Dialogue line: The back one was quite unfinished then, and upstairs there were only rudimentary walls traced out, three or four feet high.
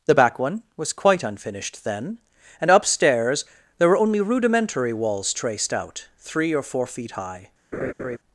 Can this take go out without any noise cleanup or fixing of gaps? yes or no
no